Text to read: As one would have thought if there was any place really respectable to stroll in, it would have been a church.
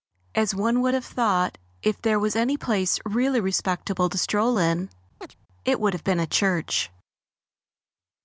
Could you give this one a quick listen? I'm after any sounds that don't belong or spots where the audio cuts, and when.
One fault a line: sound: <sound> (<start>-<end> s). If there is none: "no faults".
sound: chirp (5.2-5.3 s)